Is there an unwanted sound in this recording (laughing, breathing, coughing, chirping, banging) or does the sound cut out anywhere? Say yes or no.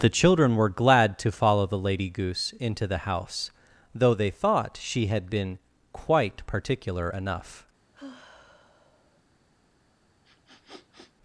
yes